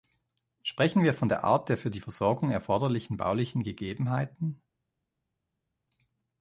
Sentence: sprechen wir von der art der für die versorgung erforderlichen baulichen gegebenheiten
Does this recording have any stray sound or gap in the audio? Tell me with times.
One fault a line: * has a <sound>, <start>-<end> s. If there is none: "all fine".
all fine